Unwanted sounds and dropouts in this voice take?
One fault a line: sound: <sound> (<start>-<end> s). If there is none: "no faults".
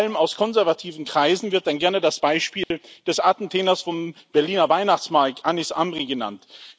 sound: dropout (2.6-2.7 s)